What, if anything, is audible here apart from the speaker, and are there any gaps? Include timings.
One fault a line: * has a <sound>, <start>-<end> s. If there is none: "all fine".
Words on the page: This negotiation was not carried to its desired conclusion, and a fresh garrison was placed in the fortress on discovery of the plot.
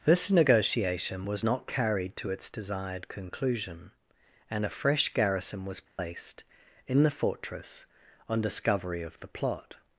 * has a dropout, 5.9-6.0 s